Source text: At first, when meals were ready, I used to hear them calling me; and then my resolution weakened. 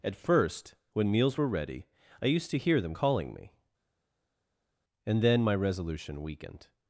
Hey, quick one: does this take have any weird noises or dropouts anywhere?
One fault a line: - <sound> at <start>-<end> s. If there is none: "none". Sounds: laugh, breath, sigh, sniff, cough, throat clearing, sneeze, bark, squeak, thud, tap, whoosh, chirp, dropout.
none